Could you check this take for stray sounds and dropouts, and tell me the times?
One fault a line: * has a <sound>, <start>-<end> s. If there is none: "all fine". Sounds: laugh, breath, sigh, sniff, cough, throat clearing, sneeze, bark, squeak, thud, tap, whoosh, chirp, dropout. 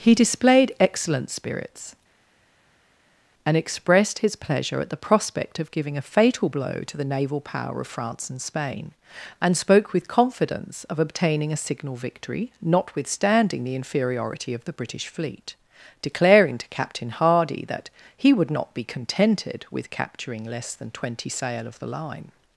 all fine